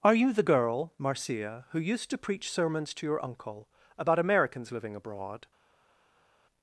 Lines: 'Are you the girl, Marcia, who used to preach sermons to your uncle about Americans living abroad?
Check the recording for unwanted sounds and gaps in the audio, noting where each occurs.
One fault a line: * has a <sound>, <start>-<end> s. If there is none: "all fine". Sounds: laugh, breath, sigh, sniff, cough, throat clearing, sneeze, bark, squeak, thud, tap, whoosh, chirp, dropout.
all fine